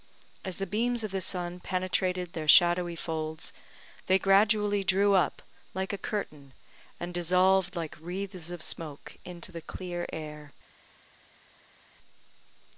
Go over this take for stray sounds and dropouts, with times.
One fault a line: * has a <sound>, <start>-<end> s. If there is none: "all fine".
all fine